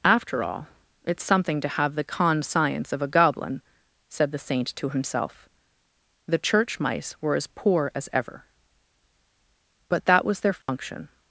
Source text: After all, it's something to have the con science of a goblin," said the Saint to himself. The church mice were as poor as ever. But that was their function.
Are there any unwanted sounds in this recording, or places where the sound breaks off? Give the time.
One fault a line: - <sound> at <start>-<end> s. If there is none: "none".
- dropout at 10.6-10.7 s